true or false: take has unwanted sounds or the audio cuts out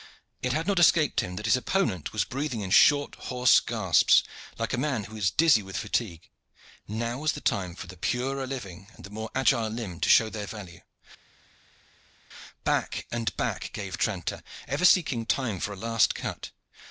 false